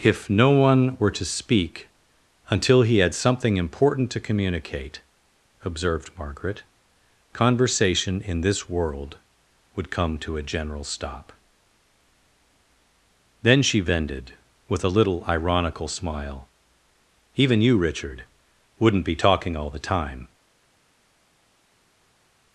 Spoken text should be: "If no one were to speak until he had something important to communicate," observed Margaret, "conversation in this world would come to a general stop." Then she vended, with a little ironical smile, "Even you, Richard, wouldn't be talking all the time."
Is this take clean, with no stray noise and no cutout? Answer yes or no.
yes